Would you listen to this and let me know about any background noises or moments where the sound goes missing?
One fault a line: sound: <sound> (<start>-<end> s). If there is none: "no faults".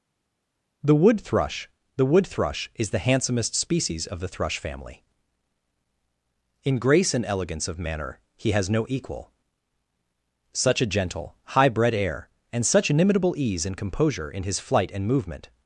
no faults